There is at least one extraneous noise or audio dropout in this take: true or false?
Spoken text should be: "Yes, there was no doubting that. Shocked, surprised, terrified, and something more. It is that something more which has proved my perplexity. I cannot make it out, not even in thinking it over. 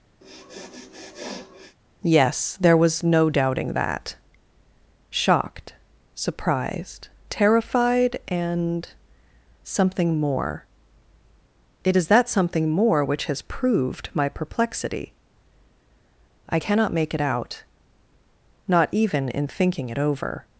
true